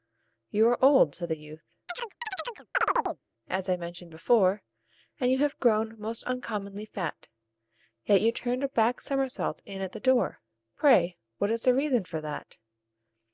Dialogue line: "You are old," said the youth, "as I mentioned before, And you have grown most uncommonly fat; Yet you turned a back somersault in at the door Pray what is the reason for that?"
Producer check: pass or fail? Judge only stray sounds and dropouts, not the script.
fail